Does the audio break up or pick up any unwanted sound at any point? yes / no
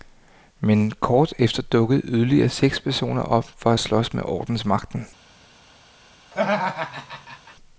yes